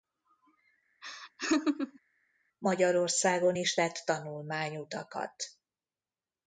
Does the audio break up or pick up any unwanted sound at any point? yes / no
yes